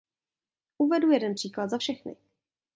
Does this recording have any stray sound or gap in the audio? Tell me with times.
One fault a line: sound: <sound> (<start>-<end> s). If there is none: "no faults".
no faults